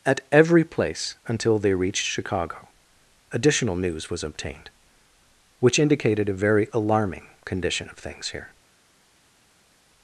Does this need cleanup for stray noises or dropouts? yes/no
no